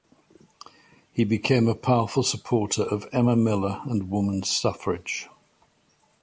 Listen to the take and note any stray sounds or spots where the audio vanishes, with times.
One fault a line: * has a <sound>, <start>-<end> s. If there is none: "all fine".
all fine